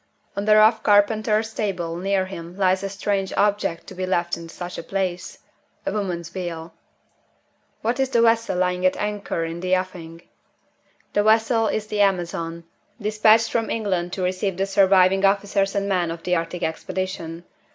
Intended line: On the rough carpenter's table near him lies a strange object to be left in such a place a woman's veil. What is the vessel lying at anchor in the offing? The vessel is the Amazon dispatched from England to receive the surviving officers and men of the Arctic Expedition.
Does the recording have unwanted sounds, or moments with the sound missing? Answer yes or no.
no